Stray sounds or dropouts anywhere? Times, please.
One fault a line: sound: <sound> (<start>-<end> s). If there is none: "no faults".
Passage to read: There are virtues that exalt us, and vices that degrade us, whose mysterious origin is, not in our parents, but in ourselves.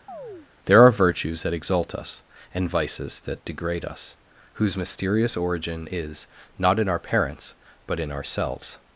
sound: chirp (0.1-0.5 s)